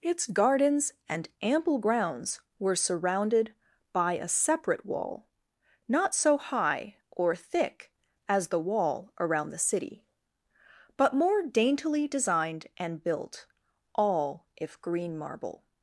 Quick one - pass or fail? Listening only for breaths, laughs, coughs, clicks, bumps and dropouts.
pass